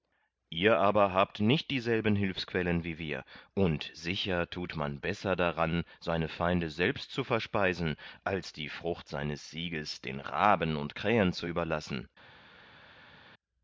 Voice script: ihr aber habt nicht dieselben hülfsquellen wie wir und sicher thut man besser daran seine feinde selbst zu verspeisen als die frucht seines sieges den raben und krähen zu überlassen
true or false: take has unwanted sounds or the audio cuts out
false